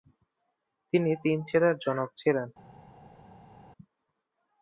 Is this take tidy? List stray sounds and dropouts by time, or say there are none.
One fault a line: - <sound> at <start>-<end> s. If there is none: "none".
none